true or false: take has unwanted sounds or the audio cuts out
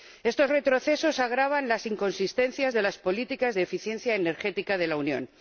false